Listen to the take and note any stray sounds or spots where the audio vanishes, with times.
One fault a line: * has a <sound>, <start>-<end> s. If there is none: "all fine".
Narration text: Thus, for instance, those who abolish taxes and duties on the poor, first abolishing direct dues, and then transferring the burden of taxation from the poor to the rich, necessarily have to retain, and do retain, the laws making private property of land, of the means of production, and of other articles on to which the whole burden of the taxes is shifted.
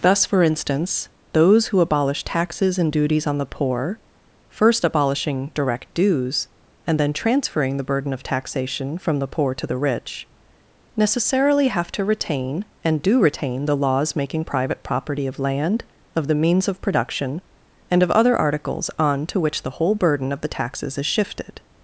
all fine